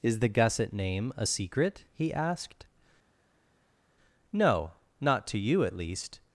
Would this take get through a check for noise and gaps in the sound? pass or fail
pass